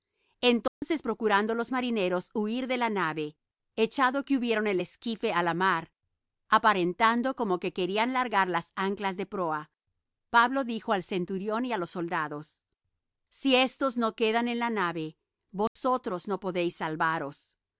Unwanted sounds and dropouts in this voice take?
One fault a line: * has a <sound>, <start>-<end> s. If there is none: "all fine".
* has a dropout, 0.7-0.8 s
* has a dropout, 15.7-15.8 s